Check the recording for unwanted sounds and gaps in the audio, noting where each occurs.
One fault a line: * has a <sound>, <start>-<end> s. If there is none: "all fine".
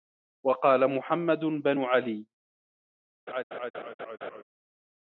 * has a laugh, 3.3-4.4 s